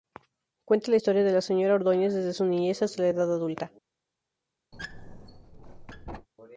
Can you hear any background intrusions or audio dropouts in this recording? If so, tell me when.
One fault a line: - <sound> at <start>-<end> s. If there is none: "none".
- squeak at 4.7-6.3 s